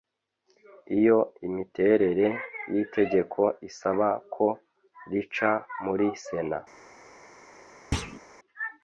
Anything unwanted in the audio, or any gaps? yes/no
yes